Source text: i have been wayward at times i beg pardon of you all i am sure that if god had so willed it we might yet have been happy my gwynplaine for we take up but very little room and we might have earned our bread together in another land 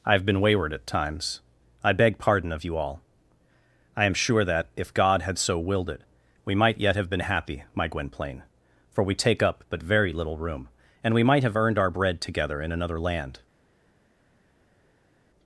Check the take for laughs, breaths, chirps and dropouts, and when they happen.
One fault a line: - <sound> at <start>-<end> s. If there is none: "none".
none